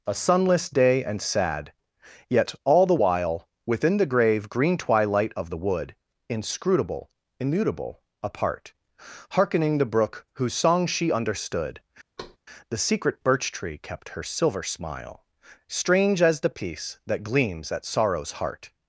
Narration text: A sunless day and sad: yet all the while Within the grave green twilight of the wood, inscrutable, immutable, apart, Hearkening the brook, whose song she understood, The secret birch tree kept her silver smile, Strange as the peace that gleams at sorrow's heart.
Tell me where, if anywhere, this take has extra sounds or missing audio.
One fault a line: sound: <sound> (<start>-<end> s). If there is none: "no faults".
sound: thud (12.2-12.4 s)